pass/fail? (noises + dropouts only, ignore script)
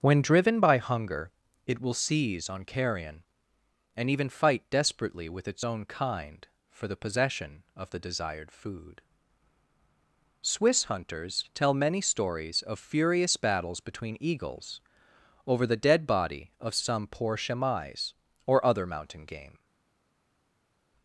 pass